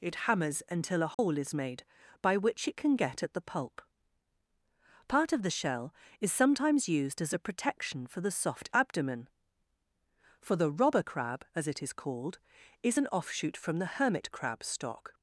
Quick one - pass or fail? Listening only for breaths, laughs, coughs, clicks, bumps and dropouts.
fail